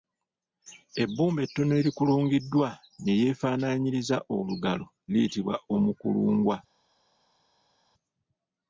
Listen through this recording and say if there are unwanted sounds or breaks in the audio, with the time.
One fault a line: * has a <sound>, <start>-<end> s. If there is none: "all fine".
all fine